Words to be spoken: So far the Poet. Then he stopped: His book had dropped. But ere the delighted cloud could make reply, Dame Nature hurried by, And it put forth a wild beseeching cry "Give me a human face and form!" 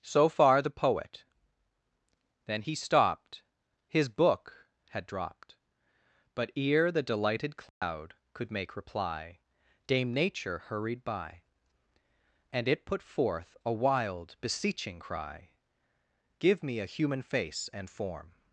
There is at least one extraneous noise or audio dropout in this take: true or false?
true